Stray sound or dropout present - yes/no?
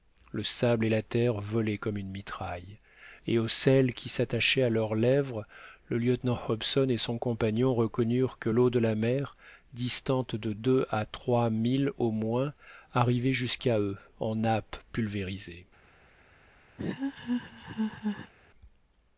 yes